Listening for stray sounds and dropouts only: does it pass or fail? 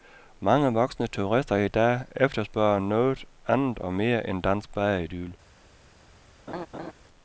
fail